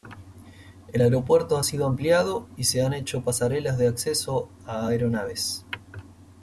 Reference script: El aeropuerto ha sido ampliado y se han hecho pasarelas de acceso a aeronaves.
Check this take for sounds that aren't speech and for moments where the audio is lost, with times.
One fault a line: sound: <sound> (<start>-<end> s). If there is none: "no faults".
no faults